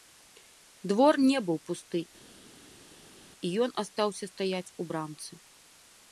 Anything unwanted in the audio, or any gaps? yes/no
no